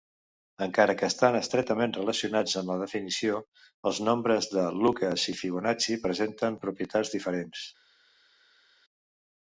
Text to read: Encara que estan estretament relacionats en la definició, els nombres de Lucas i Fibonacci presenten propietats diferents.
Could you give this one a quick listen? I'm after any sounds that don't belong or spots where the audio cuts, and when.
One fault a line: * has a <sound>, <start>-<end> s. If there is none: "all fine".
all fine